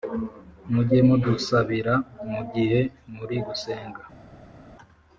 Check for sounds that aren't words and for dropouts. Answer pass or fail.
pass